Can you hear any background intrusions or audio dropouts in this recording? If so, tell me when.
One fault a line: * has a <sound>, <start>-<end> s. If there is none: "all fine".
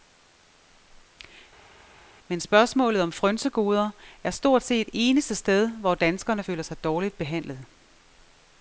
all fine